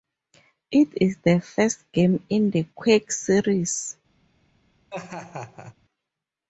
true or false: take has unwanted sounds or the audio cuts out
true